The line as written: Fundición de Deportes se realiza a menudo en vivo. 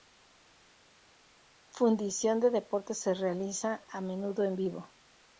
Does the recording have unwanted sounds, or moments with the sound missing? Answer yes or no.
no